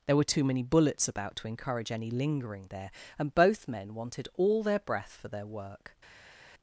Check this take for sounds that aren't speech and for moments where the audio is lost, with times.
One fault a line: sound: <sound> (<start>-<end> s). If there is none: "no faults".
no faults